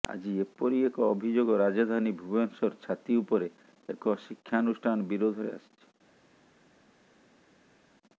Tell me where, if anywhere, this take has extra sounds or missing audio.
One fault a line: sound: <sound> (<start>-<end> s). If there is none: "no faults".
no faults